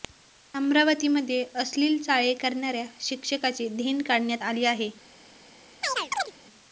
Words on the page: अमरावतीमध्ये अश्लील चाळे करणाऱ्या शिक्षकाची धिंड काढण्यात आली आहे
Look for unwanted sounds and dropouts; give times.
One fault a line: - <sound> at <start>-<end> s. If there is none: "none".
- chirp at 5.8-6.3 s